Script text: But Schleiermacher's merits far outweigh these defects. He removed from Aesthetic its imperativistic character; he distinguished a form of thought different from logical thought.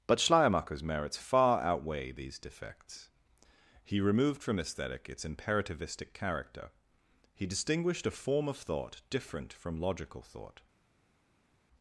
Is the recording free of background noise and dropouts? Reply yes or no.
yes